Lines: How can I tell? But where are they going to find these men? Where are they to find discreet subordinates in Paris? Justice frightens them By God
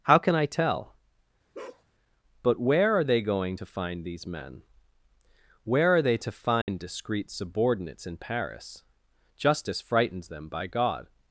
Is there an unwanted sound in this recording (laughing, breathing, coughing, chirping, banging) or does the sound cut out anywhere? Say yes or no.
yes